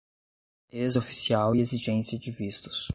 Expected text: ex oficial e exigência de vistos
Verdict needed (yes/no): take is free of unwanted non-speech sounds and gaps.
yes